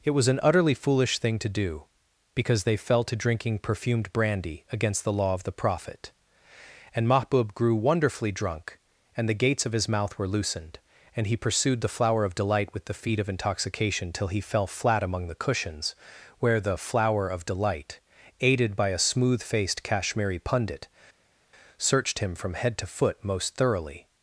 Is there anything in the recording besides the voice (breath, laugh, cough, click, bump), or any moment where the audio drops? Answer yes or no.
no